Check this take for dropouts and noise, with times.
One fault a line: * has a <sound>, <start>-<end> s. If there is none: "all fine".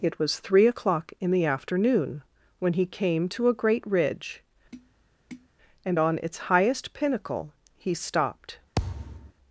* has a tap, 4.7-5.5 s
* has a thud, 8.7-9.3 s